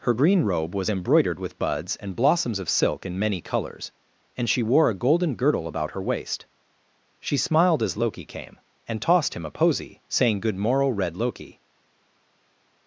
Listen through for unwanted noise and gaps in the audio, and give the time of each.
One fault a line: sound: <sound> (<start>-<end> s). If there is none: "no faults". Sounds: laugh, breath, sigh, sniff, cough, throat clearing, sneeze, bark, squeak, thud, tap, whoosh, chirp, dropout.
no faults